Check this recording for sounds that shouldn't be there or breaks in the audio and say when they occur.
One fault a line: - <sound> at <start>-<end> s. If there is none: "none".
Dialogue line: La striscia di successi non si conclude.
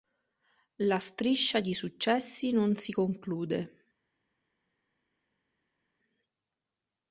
none